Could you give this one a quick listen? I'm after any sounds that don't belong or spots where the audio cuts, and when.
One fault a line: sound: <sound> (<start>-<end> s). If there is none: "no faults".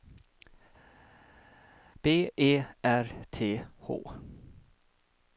no faults